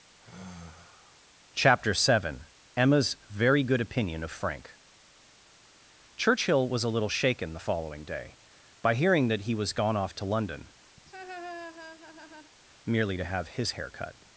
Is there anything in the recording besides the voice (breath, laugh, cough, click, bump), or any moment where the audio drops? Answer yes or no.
yes